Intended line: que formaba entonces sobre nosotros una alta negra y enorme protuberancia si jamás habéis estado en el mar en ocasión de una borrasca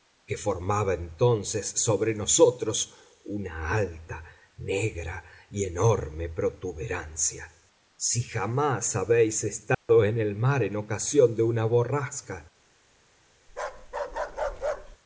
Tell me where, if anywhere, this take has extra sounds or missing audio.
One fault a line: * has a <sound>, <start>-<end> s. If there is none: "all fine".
* has a dropout, 9.7-9.9 s
* has a bark, 13.5-15.0 s